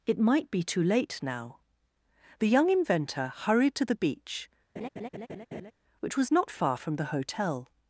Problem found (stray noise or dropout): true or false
true